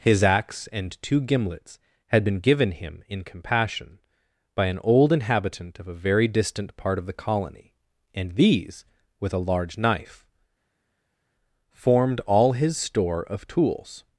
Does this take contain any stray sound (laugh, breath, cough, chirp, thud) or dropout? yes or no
no